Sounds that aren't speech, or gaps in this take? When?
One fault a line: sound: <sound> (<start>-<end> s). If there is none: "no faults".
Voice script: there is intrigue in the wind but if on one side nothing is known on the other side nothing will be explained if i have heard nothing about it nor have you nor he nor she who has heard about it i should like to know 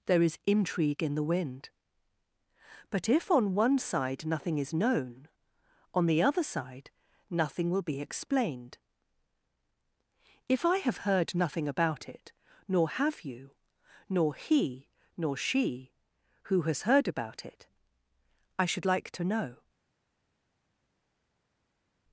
no faults